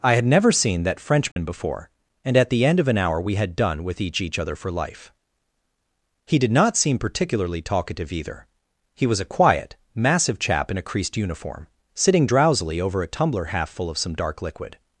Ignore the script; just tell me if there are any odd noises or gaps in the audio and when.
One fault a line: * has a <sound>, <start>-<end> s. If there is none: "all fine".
* has a dropout, 1.3-1.4 s